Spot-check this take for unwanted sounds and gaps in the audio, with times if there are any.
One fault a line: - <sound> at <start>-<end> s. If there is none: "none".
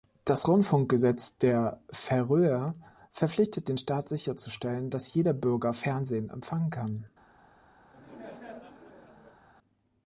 - laugh at 7.9-9.4 s